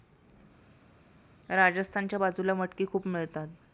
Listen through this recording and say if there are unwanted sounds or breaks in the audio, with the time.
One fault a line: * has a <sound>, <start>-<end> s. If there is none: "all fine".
all fine